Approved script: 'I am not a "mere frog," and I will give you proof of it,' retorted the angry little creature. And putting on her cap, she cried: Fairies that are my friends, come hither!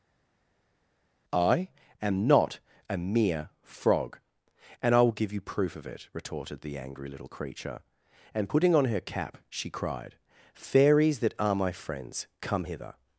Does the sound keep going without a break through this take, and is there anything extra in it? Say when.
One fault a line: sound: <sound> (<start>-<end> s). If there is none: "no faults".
no faults